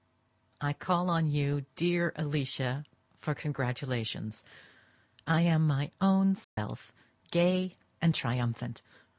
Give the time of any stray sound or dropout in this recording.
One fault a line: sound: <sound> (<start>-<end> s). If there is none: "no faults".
sound: dropout (6.4-6.6 s)